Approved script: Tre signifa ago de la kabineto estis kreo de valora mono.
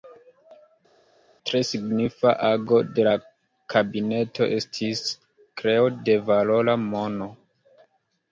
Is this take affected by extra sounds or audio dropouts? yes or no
no